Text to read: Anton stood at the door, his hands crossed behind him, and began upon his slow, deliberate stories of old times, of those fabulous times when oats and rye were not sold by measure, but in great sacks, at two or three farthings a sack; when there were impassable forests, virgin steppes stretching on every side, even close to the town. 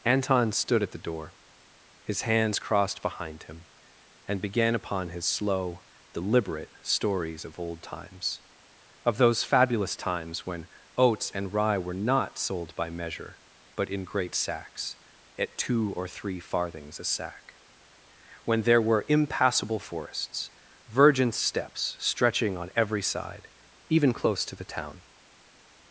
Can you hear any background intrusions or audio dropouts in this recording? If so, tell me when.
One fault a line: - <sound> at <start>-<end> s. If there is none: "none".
none